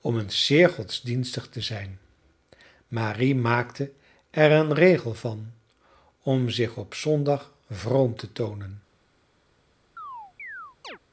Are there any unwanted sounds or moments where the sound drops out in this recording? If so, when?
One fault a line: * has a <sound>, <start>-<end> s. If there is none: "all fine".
* has a chirp, 10.0-11.0 s